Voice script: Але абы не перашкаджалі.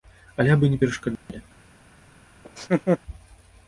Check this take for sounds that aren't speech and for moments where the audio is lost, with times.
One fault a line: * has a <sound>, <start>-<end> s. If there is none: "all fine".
* has a dropout, 1.2-1.3 s
* has a laugh, 2.4-3.0 s